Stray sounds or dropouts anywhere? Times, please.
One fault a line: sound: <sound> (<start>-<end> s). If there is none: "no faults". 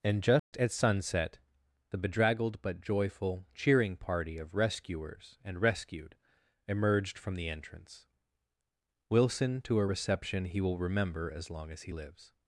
sound: dropout (0.4-0.5 s)